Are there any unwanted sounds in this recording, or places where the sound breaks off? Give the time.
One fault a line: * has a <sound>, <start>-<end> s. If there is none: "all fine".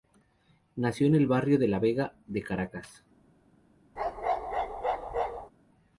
* has a bark, 4.0-5.5 s